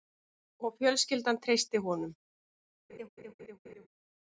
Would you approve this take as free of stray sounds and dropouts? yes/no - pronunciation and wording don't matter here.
no